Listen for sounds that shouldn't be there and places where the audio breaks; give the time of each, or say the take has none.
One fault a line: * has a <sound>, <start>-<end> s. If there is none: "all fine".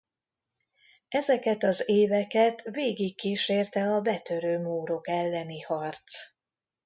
all fine